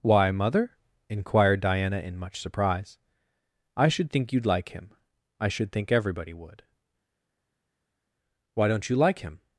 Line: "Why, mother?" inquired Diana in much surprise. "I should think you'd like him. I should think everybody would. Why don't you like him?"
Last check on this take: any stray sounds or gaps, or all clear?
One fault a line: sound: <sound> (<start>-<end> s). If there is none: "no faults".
no faults